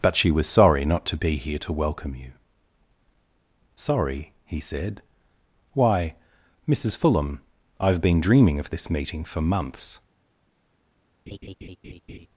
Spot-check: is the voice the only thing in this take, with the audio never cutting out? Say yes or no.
no